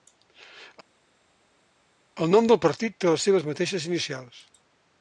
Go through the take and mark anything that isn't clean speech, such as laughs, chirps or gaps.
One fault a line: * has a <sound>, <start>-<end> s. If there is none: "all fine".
all fine